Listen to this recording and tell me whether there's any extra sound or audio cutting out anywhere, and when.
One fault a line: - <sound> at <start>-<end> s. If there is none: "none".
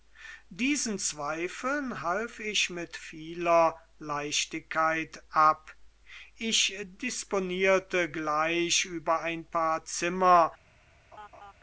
- laugh at 11.1-11.5 s